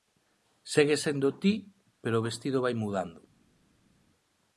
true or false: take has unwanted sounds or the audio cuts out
false